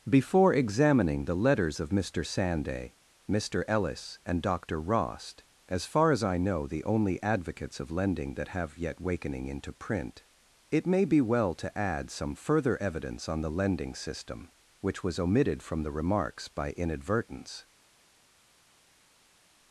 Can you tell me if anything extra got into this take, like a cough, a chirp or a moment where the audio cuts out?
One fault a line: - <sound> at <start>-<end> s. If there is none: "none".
none